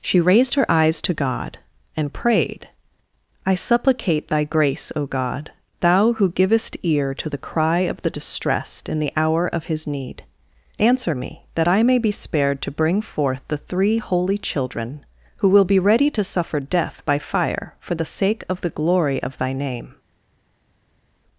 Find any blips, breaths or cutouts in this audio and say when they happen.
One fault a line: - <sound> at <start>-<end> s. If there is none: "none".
none